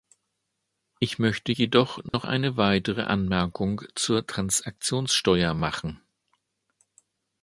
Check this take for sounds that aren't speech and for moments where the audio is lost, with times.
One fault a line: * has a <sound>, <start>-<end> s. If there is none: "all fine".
* has a dropout, 2.1-2.1 s